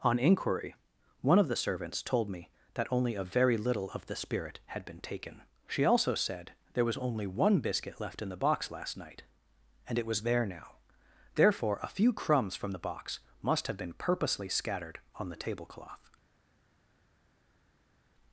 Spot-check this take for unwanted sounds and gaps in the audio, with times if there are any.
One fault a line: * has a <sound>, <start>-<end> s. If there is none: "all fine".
all fine